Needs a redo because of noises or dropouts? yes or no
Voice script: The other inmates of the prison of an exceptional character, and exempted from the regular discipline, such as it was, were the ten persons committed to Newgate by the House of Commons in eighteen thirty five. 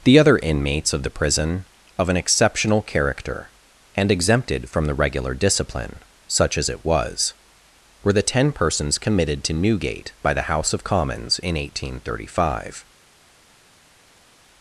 no